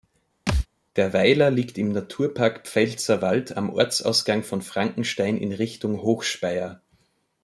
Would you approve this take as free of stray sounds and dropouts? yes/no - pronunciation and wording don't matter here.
no